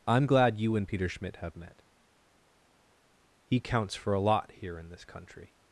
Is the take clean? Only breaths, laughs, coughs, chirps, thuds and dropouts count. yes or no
yes